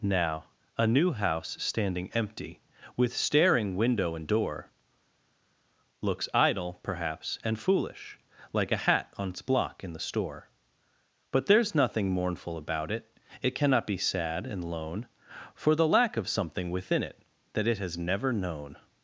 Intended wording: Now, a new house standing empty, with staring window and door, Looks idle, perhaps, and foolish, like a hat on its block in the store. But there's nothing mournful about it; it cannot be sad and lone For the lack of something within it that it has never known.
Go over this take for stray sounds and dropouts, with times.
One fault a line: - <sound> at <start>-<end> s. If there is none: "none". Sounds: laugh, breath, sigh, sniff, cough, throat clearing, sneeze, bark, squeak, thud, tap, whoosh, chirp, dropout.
none